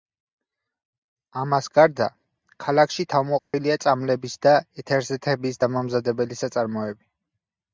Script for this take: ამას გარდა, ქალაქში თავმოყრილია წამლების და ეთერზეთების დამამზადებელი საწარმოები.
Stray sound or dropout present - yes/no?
yes